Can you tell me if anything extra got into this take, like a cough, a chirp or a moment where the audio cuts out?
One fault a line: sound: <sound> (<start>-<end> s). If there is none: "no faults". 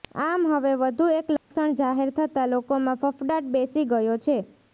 sound: dropout (1.4-1.5 s)